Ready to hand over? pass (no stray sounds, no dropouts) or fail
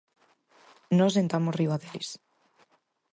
pass